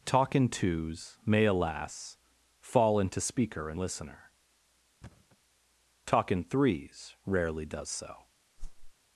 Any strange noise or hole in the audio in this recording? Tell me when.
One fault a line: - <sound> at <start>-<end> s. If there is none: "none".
- thud at 5.0-5.4 s
- whoosh at 8.6-8.9 s